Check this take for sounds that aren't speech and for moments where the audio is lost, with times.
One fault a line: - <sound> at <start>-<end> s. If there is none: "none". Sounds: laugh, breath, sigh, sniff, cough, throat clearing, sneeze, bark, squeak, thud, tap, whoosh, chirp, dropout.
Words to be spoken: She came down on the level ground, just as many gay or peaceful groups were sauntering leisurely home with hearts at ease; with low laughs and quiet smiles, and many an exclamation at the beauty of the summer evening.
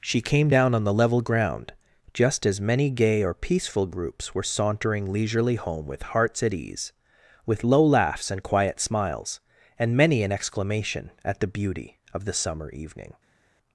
none